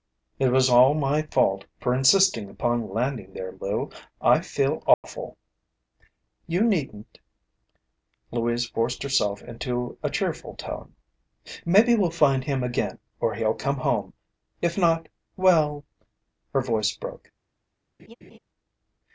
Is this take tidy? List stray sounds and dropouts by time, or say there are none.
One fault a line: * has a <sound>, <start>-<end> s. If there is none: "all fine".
* has a dropout, 4.9-5.0 s
* has a laugh, 18.0-18.4 s